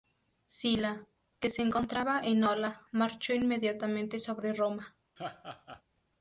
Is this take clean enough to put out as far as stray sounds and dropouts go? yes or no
no